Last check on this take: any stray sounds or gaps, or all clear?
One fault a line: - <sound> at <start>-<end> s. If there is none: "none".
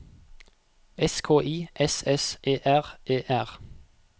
none